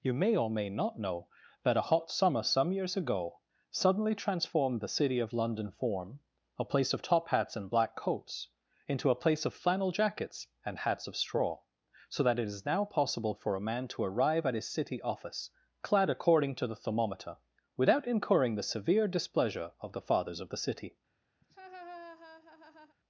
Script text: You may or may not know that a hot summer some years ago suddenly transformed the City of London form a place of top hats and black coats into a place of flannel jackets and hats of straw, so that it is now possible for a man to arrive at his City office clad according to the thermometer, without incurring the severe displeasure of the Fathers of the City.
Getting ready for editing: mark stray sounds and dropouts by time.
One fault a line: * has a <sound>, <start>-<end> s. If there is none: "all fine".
* has a laugh, 21.4-23.0 s